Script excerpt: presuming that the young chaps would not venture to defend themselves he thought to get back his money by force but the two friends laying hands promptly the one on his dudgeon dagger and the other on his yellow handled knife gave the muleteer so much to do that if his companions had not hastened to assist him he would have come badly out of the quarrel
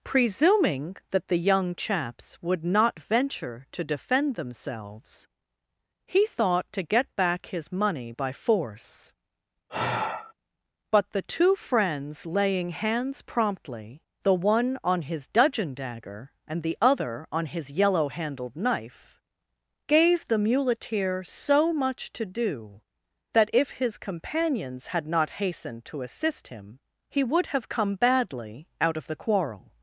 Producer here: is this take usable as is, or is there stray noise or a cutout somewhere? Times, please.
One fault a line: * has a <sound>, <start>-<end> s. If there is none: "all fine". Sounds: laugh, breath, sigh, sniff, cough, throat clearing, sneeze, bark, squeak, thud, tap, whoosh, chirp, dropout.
* has a sigh, 9.7-10.3 s